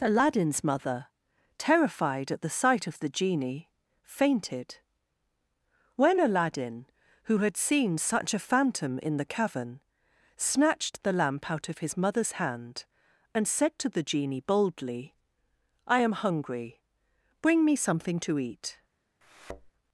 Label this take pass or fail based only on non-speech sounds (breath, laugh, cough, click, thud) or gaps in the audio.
fail